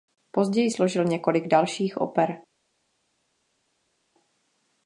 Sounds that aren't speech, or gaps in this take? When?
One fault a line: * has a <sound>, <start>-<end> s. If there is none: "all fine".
all fine